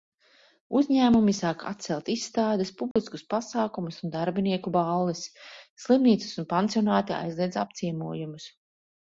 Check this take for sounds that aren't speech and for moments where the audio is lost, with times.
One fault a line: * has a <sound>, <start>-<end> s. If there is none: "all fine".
* has a dropout, 2.9-3.0 s